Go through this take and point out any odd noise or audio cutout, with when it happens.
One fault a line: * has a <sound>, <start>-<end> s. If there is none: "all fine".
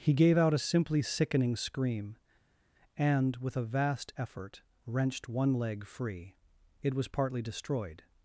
all fine